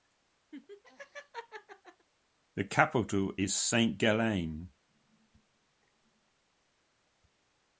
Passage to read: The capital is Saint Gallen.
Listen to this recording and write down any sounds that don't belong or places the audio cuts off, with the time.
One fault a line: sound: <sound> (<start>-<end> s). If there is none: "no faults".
sound: laugh (0.5-2.1 s)